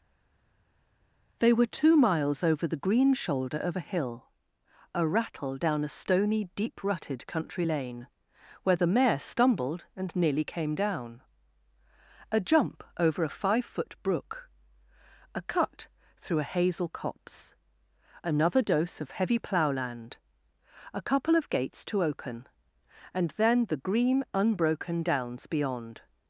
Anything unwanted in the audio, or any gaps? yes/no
no